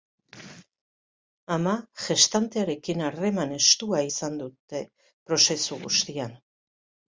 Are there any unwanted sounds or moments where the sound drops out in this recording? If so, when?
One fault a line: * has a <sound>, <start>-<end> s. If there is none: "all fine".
all fine